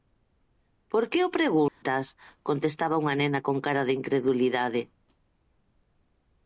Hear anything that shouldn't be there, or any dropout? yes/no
yes